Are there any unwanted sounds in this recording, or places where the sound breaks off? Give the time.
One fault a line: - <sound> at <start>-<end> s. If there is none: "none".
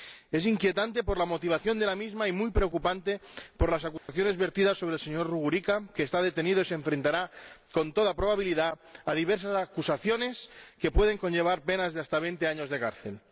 - dropout at 4.0-4.1 s